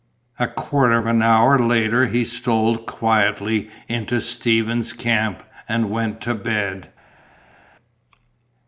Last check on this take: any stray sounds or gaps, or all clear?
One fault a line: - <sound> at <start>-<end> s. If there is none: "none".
none